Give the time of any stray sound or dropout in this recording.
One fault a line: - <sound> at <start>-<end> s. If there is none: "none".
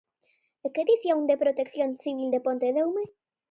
none